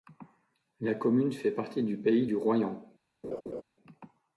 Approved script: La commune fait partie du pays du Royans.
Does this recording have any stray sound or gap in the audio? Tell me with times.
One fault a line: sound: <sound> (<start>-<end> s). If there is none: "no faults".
sound: laugh (3.2-3.6 s)